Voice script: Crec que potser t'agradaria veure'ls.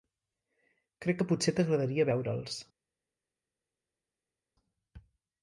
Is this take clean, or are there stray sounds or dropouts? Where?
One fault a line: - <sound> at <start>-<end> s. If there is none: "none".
none